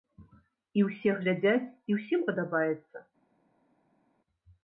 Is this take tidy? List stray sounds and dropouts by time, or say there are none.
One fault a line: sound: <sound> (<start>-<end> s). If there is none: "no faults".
no faults